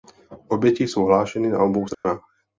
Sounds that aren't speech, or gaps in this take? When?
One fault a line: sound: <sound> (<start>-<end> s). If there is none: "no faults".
sound: dropout (1.9-2.0 s)